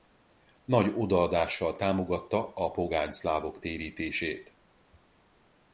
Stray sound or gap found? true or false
false